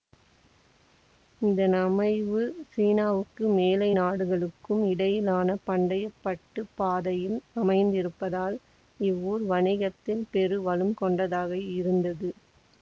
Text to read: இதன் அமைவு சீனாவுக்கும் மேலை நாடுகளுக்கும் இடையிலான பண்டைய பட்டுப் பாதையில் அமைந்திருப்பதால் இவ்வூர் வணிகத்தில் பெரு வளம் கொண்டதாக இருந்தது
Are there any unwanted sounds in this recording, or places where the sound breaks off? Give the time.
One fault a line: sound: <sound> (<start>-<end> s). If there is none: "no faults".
no faults